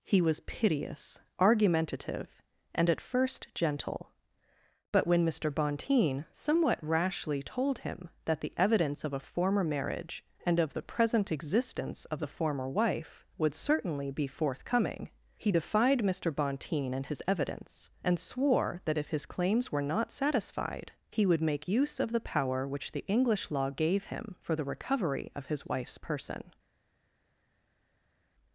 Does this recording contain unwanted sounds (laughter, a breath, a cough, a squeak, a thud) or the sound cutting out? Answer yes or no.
no